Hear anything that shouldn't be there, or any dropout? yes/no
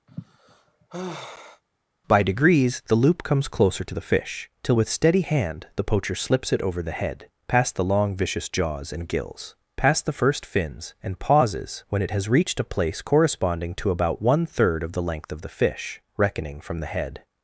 yes